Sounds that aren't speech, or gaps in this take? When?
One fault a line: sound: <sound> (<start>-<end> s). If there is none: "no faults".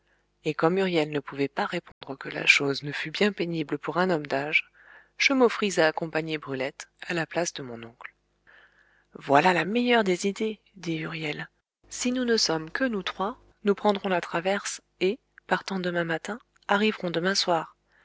sound: dropout (1.9-2.0 s)